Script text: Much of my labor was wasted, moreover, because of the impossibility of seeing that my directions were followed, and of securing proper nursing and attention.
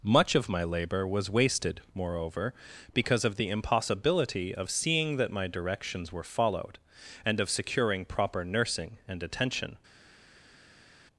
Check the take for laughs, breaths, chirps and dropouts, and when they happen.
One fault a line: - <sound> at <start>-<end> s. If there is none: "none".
none